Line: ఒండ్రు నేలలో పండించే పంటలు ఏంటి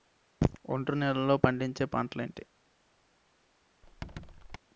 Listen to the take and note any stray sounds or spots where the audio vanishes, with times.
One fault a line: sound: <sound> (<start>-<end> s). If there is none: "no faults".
sound: squeak (3.8-4.6 s)